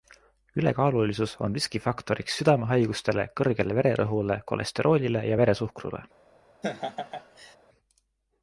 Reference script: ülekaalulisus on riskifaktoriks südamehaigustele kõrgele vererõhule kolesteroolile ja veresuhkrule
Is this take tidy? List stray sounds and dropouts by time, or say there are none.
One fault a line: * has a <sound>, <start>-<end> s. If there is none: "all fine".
* has a laugh, 6.6-7.6 s